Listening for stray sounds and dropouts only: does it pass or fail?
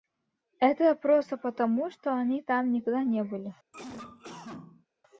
fail